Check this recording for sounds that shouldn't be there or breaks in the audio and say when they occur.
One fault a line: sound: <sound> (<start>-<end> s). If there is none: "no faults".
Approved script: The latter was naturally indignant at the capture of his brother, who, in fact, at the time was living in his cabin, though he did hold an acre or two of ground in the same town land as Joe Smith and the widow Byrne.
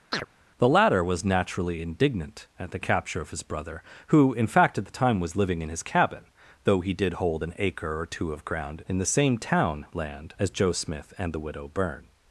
sound: chirp (0.1-0.3 s)